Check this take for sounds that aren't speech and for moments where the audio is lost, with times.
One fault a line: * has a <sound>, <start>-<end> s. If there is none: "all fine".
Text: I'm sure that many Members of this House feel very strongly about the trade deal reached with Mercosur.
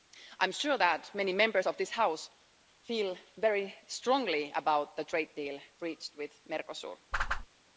* has a whoosh, 7.1-7.5 s